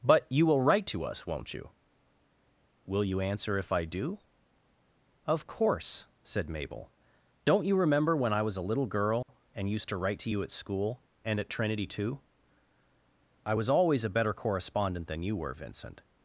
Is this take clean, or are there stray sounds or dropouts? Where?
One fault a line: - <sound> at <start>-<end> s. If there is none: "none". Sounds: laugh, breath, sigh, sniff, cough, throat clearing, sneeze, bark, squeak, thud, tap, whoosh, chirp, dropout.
- dropout at 9.2-9.3 s